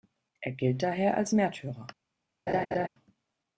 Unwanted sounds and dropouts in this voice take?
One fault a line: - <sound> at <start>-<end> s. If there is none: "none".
- laugh at 2.5-2.9 s